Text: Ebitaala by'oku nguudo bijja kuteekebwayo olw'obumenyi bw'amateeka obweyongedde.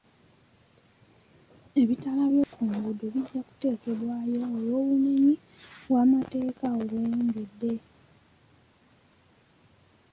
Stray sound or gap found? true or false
true